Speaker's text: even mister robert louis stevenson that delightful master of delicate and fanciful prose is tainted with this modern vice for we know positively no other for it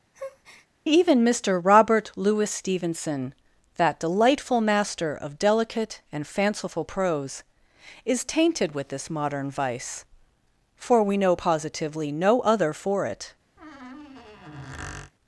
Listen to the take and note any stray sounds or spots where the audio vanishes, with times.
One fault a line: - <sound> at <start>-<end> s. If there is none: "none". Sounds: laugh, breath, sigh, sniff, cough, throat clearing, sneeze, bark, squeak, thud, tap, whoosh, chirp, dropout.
- breath at 0.1-0.7 s
- squeak at 13.6-15.1 s